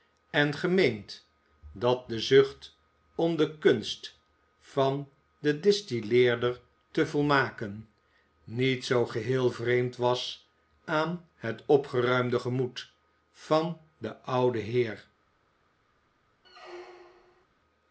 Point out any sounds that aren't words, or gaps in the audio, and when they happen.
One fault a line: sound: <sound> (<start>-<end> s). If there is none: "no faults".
sound: squeak (16.4-17.5 s)